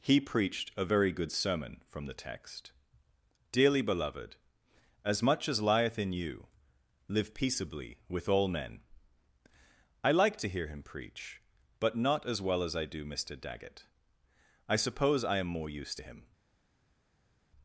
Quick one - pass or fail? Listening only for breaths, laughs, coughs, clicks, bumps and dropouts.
pass